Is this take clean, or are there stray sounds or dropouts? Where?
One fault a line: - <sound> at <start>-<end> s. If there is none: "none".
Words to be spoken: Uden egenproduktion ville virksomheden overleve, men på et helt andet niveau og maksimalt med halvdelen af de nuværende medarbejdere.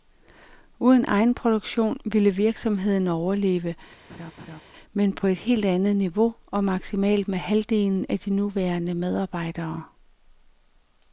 - laugh at 4.1-4.6 s